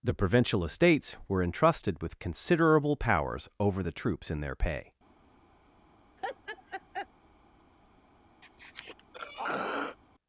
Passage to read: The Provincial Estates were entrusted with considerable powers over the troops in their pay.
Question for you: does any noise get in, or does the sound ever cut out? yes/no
yes